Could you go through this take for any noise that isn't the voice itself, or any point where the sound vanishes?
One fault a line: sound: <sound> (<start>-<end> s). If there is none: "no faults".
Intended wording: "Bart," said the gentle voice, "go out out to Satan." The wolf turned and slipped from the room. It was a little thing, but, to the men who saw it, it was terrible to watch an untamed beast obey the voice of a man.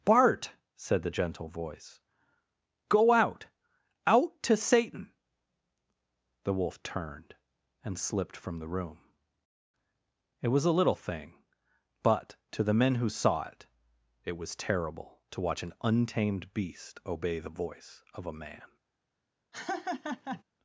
sound: laugh (19.5-20.4 s)